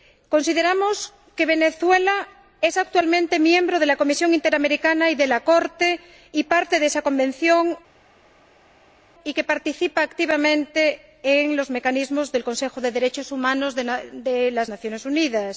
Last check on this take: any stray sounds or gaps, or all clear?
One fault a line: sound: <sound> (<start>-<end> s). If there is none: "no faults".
no faults